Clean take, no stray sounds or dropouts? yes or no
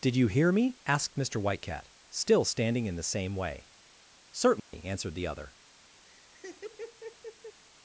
no